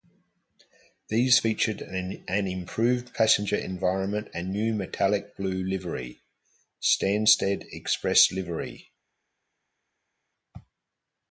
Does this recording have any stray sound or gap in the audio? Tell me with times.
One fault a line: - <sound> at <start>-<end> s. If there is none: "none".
none